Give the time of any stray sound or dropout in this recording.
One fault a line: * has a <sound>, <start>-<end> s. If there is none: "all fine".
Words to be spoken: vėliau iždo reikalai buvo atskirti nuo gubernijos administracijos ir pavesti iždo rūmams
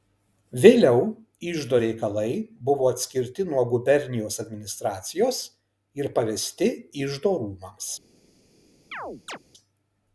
* has a chirp, 8.9-9.4 s